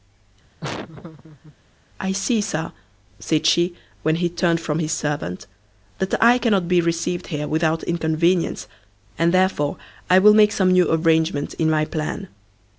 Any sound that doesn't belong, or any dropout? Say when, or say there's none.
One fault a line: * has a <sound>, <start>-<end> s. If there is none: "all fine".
* has a laugh, 0.6-1.6 s